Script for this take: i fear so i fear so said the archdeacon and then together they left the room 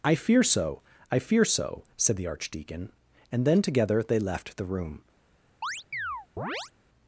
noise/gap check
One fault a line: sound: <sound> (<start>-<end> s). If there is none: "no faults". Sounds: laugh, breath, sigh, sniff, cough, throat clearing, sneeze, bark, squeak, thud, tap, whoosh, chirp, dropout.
sound: chirp (5.6-6.7 s)